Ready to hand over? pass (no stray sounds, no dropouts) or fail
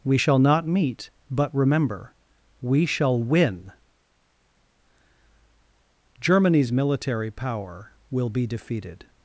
pass